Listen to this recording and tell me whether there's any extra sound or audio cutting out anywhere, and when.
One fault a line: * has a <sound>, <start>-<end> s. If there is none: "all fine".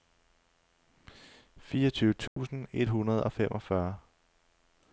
* has a dropout, 2.3-2.4 s